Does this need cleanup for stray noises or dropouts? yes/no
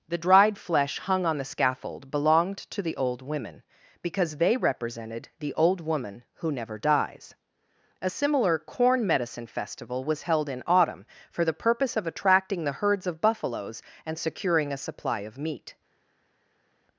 no